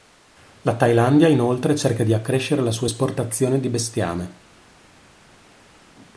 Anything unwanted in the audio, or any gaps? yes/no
no